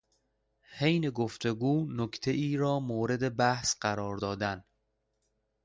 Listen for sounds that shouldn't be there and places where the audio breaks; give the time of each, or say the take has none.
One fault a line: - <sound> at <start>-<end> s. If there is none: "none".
none